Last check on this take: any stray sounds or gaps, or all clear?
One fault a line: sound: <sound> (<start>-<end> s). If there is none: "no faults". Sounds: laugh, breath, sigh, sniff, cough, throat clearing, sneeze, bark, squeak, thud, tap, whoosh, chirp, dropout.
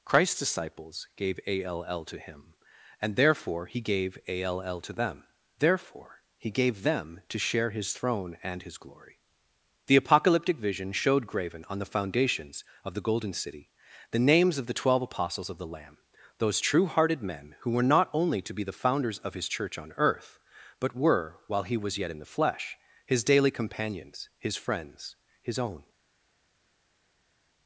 no faults